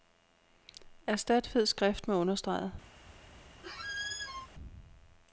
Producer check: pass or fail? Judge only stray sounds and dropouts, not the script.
fail